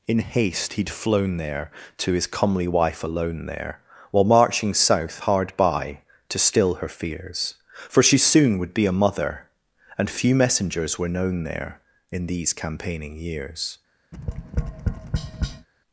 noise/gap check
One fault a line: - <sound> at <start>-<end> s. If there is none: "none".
- tap at 14.1-15.7 s